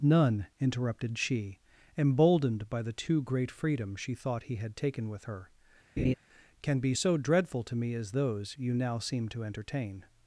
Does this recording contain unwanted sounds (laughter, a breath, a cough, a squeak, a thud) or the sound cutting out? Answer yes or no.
yes